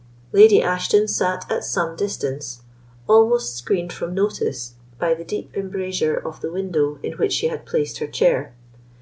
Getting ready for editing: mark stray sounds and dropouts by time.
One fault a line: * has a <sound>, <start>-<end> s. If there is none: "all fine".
all fine